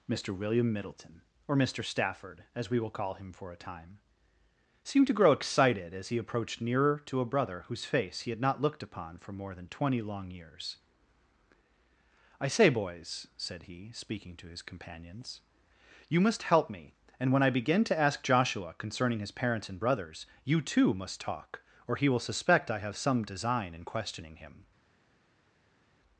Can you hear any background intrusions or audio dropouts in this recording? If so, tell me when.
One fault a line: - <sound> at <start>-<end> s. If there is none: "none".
none